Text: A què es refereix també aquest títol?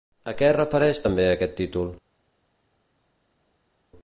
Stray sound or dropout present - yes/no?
no